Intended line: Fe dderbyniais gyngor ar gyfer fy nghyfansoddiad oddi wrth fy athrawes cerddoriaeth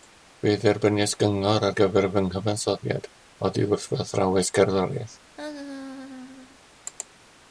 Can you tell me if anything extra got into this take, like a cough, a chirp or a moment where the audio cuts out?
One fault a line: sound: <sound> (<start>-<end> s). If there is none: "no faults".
sound: laugh (5.4-6.6 s)